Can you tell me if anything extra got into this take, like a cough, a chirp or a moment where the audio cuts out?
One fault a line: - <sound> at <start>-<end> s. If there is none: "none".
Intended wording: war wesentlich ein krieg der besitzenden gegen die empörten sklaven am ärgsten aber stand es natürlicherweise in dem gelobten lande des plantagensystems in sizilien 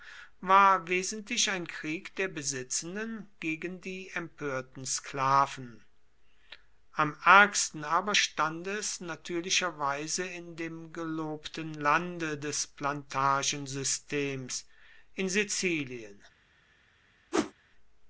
- whoosh at 17.3-17.5 s